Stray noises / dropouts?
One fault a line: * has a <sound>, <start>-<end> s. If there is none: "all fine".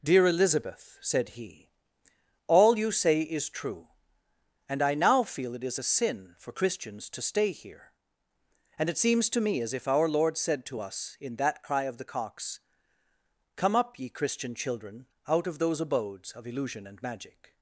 all fine